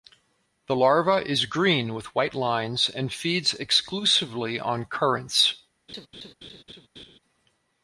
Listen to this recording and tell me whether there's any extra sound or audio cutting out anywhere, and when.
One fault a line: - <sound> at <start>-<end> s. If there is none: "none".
- laugh at 5.9-7.2 s